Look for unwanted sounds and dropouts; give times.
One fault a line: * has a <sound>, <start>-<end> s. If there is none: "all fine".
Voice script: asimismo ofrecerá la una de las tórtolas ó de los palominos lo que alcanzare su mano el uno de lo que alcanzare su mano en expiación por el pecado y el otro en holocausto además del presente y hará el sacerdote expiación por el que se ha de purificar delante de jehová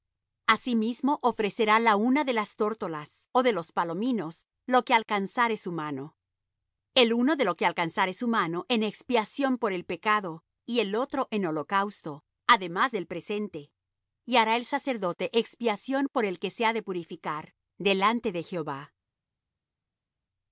all fine